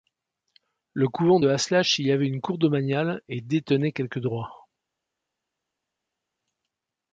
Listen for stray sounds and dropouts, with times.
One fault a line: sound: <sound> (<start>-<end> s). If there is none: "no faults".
no faults